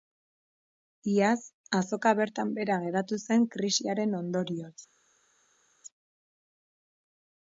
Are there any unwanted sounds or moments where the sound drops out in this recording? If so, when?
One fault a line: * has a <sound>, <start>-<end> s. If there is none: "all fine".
all fine